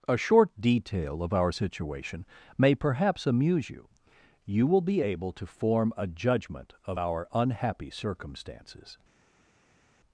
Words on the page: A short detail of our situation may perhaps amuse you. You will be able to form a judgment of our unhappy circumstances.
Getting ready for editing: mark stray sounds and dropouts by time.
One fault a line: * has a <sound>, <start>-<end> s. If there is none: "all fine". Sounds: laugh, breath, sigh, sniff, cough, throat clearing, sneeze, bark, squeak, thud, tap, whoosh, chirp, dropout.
all fine